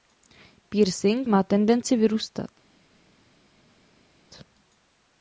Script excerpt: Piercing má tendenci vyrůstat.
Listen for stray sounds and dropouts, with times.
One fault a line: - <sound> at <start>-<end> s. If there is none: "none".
none